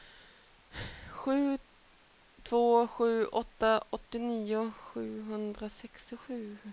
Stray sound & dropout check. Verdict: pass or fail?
pass